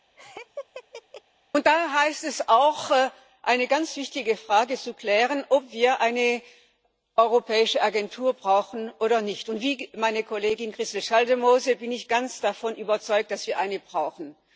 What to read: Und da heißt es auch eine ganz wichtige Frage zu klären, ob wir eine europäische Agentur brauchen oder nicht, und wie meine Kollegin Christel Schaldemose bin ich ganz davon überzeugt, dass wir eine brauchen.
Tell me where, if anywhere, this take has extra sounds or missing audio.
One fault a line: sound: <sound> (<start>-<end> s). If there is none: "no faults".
sound: laugh (0.2-1.2 s)